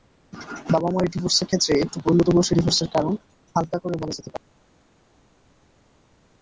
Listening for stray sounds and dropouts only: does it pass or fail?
pass